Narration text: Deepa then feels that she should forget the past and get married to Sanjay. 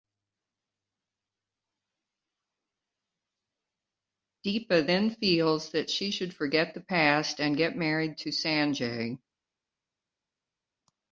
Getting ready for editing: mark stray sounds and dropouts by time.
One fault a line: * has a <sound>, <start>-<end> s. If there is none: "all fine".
all fine